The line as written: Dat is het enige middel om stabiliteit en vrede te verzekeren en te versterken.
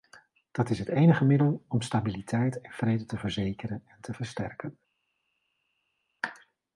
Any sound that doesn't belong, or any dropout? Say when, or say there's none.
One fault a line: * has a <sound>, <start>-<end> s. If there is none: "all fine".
all fine